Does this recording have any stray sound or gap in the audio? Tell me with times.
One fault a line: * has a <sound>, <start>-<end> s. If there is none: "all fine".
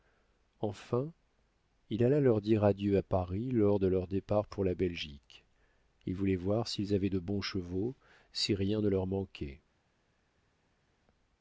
all fine